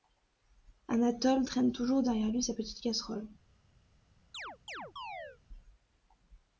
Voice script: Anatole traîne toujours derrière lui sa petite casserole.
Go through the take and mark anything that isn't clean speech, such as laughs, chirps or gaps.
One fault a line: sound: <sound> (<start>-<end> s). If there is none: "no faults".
sound: chirp (4.3-5.4 s)